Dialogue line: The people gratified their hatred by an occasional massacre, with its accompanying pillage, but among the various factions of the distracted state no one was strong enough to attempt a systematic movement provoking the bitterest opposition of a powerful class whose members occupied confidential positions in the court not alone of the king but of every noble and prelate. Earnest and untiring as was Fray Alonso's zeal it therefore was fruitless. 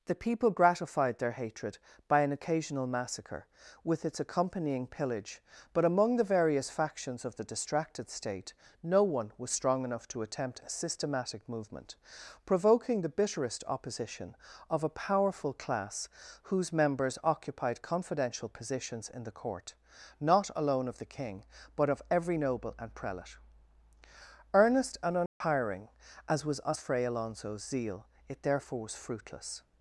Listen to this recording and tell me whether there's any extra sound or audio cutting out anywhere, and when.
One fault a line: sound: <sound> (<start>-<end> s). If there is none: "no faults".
sound: dropout (25.3-25.4 s)